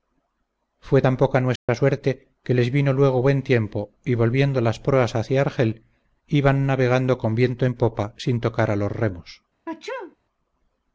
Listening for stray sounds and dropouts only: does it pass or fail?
fail